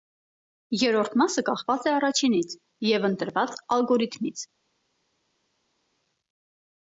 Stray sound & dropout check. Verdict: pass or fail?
pass